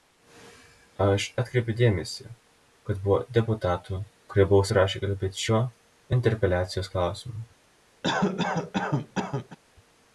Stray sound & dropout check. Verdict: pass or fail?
fail